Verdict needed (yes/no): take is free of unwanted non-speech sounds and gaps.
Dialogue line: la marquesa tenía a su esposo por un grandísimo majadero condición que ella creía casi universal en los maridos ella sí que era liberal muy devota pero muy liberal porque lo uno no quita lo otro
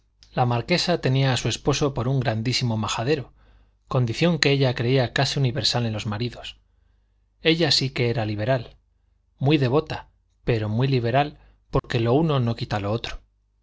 no